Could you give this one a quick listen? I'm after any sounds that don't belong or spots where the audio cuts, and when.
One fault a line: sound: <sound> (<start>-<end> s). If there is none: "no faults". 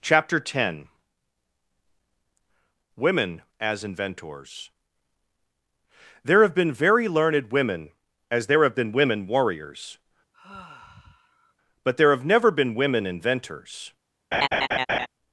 sound: sigh (10.3-11.5 s)
sound: laugh (14.3-15.1 s)